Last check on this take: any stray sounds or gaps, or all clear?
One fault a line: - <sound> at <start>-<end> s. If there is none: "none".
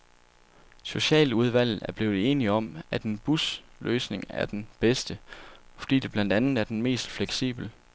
none